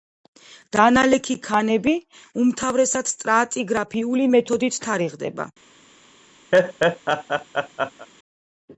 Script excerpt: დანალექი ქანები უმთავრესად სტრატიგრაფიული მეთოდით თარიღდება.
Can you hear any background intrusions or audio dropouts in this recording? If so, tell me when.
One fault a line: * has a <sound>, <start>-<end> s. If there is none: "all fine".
* has a laugh, 6.5-8.1 s